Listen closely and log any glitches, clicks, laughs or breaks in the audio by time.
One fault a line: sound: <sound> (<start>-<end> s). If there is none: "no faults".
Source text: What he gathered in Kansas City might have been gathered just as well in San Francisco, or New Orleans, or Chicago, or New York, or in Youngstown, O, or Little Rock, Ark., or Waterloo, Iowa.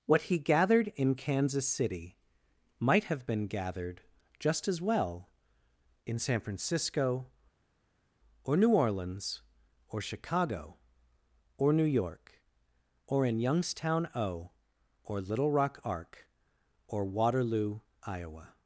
no faults